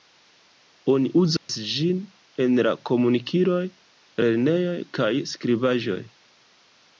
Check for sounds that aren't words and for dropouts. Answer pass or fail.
fail